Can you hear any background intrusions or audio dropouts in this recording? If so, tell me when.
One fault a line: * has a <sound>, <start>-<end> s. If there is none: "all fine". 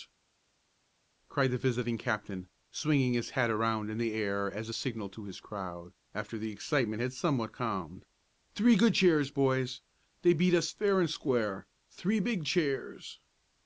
all fine